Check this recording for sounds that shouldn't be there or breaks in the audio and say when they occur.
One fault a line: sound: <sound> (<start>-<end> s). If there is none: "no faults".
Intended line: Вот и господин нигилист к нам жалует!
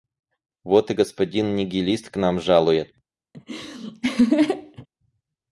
sound: laugh (3.3-4.9 s)